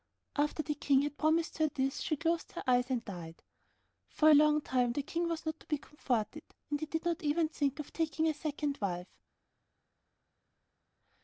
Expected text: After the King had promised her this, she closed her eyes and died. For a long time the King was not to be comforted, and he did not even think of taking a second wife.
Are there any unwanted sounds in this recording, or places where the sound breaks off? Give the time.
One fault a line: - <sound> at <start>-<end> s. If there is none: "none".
none